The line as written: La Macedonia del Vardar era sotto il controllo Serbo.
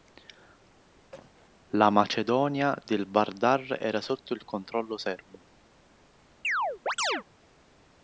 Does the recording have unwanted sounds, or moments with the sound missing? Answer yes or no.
yes